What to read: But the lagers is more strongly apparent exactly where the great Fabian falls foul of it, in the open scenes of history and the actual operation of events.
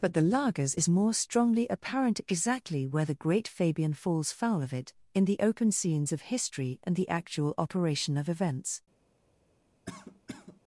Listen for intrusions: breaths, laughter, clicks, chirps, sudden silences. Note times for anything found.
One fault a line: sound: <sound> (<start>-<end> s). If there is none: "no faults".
sound: cough (9.9-10.6 s)